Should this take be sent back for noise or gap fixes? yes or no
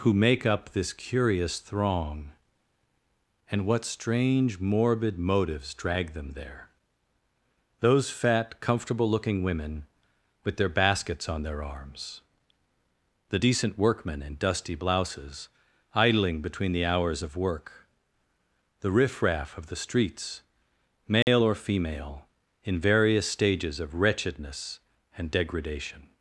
yes